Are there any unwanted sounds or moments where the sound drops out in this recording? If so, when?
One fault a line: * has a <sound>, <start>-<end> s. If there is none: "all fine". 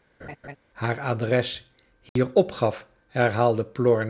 * has a laugh, 0.2-0.6 s
* has a dropout, 2.1-2.2 s